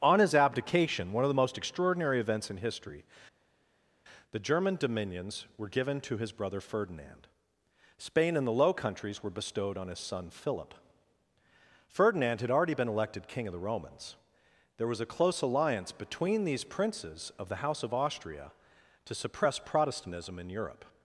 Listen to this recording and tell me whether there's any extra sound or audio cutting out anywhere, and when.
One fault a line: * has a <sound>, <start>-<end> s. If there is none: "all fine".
all fine